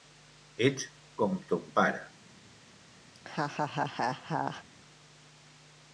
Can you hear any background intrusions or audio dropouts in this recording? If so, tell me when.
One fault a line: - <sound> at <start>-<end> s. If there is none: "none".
- laugh at 3.1-4.6 s